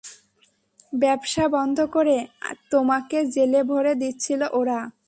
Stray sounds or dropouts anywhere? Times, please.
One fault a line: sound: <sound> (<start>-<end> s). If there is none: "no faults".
no faults